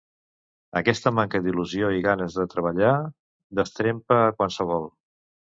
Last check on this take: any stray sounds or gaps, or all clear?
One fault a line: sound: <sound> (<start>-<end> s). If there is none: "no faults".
no faults